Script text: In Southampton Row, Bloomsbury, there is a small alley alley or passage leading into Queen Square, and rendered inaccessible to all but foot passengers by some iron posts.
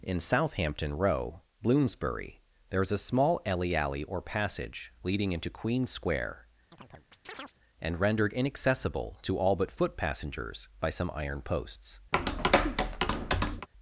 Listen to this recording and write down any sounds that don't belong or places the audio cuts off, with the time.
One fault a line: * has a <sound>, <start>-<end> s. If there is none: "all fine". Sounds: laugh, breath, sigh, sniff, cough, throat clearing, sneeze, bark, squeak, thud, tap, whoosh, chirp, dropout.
* has a chirp, 6.7-7.6 s
* has a tap, 12.1-13.7 s